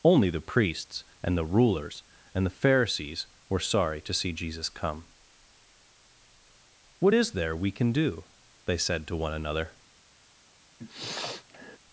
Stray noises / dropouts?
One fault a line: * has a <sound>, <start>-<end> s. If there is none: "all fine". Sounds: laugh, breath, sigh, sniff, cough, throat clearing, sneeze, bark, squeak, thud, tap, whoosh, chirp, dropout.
* has a sniff, 10.8-11.8 s